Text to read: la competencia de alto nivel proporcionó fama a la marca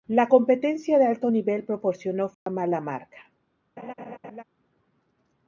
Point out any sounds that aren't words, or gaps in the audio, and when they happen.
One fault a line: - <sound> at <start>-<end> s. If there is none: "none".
- dropout at 2.3-2.5 s
- laugh at 3.8-4.4 s